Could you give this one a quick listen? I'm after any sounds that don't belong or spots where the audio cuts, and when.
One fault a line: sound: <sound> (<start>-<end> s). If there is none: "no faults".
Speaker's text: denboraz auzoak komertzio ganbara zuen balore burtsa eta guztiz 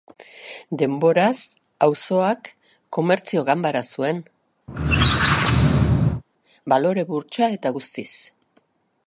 sound: squeak (4.7-6.2 s)